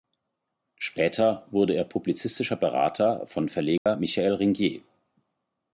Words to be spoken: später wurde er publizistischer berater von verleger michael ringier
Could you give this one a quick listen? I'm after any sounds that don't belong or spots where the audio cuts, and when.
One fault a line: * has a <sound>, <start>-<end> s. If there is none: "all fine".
* has a dropout, 3.8-3.9 s